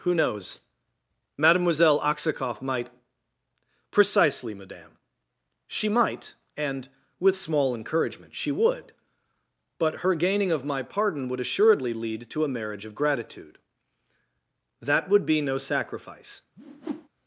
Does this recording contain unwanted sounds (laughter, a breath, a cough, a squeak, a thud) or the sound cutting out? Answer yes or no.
yes